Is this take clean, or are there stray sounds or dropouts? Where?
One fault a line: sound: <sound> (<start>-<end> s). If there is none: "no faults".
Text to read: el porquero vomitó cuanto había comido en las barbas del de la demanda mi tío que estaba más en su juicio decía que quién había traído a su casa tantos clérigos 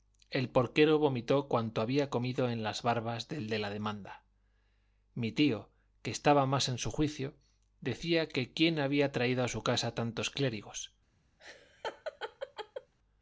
sound: laugh (11.4-12.9 s)